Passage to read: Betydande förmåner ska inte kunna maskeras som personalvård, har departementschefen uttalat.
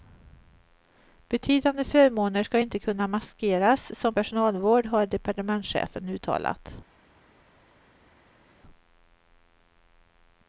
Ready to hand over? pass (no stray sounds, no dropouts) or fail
pass